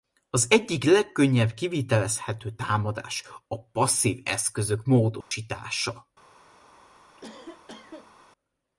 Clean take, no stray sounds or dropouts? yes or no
no